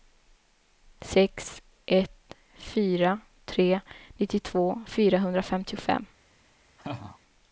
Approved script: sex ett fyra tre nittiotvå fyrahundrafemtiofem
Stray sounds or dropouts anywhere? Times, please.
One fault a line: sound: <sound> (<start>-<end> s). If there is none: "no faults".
sound: laugh (6.8-7.2 s)